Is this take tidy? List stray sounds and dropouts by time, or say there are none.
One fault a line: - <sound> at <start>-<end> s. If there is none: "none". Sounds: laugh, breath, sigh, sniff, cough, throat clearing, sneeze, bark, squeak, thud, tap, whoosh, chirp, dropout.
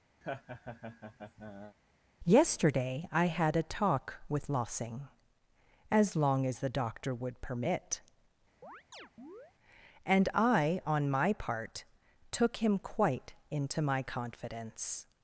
- laugh at 0.2-1.8 s
- chirp at 8.6-9.5 s